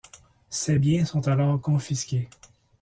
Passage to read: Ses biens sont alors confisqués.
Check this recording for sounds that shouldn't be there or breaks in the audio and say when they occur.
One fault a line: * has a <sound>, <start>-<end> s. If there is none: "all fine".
all fine